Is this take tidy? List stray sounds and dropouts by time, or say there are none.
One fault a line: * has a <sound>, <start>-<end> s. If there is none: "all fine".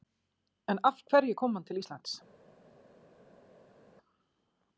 all fine